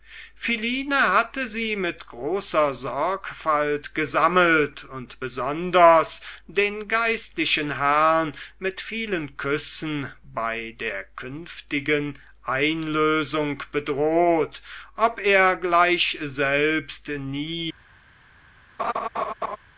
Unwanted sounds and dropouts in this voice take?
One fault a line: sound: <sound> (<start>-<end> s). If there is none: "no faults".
sound: laugh (18.8-19.6 s)